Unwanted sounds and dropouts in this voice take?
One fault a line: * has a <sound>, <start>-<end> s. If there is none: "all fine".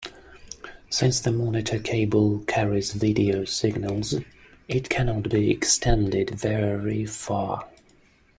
all fine